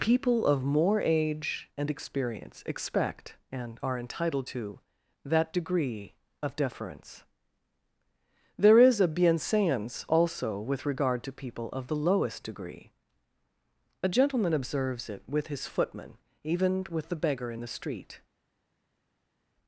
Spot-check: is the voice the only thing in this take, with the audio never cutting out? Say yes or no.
yes